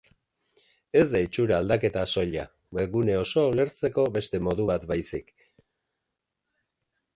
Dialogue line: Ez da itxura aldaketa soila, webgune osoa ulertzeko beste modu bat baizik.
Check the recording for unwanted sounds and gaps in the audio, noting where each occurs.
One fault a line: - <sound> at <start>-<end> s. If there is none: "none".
none